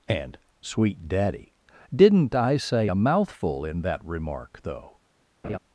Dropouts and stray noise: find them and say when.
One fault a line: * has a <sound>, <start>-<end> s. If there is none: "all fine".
* has a laugh, 5.4-5.6 s